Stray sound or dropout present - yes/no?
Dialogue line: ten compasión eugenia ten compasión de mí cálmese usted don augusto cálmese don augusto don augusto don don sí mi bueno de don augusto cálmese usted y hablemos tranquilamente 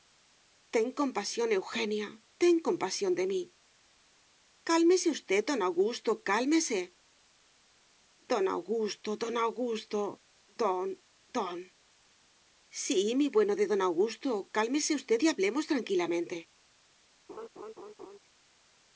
yes